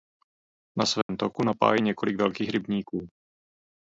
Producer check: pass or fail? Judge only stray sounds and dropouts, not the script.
fail